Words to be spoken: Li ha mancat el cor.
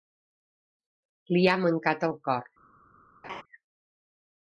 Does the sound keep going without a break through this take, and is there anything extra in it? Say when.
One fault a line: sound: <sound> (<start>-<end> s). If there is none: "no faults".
sound: laugh (3.2-3.4 s)